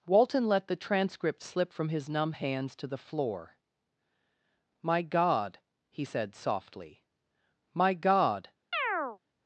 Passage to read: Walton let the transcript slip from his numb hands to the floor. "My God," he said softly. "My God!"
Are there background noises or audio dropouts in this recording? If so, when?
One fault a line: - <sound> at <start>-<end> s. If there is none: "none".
- chirp at 8.7-9.2 s